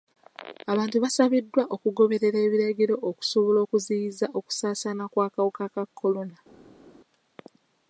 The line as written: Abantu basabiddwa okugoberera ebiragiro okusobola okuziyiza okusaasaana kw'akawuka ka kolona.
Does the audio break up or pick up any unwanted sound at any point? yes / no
no